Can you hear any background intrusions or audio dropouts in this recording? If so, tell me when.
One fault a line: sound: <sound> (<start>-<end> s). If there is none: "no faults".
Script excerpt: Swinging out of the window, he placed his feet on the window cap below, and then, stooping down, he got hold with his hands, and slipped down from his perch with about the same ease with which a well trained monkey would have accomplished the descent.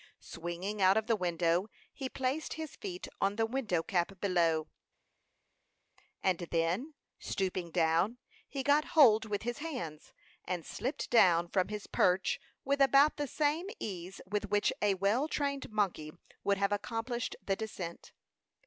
no faults